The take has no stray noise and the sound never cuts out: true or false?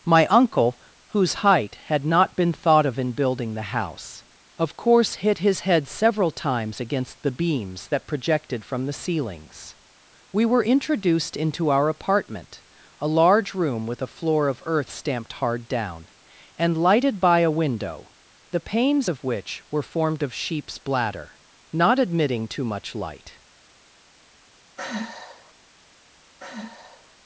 false